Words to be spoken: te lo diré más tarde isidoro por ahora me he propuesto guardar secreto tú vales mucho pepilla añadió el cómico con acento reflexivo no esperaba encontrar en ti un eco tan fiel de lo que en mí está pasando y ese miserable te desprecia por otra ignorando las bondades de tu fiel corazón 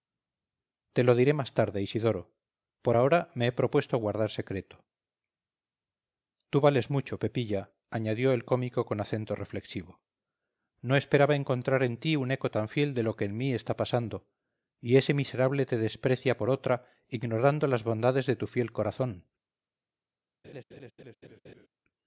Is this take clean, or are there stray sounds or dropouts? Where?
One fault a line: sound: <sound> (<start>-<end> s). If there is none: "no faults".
sound: laugh (20.4-21.7 s)